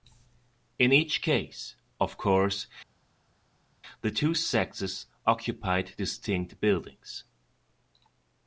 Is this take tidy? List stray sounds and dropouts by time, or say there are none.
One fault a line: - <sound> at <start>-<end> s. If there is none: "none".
none